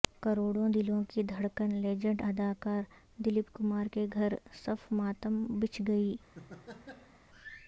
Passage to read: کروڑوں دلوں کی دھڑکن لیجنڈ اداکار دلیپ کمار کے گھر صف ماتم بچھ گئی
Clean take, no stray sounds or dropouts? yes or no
no